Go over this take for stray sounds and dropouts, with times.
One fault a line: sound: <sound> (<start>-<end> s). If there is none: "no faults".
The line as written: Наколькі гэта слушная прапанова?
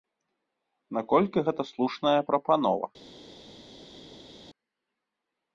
no faults